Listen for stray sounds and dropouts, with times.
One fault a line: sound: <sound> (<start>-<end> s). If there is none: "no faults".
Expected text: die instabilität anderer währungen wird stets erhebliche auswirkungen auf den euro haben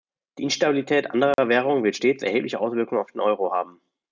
sound: dropout (1.3-1.4 s)